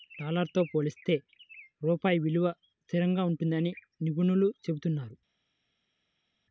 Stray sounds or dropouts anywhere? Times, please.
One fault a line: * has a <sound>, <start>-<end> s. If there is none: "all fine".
all fine